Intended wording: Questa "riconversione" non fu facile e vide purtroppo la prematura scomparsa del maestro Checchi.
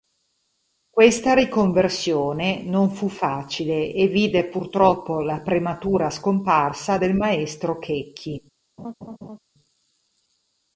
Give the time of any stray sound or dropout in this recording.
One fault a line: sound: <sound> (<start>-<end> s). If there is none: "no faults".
sound: laugh (8.8-9.4 s)